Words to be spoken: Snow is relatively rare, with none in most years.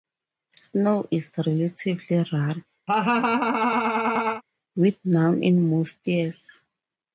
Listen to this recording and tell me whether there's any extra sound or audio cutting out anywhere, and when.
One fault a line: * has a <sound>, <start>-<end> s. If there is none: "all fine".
* has a laugh, 2.9-4.4 s